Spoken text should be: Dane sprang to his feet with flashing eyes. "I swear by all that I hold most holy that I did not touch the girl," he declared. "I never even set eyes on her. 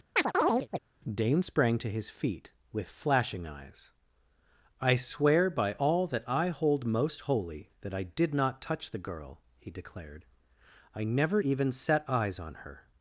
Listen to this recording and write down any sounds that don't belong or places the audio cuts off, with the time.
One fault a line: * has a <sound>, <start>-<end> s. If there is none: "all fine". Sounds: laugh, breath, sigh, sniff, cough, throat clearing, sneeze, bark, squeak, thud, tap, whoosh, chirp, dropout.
* has a chirp, 0.2-0.8 s